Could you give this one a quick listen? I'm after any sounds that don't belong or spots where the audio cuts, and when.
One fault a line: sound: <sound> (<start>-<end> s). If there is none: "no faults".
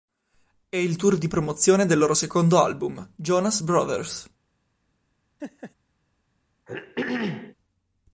sound: laugh (5.4-5.7 s)
sound: throat clearing (6.7-7.6 s)